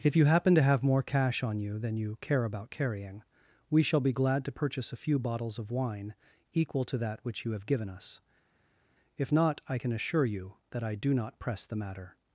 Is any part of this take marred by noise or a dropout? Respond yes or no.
no